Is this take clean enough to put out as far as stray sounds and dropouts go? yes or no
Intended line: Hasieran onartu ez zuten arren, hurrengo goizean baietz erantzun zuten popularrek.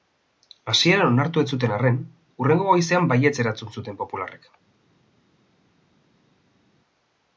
yes